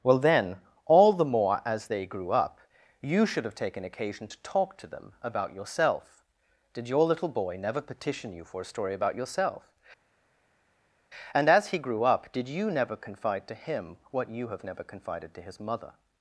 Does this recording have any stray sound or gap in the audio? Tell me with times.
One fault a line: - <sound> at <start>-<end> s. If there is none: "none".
none